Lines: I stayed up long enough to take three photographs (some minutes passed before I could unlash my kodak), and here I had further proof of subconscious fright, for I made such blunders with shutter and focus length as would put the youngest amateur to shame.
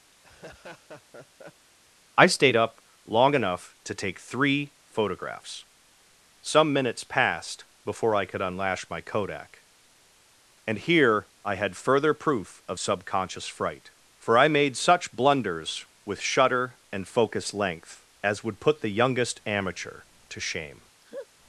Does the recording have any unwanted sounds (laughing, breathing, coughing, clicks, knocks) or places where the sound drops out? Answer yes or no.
yes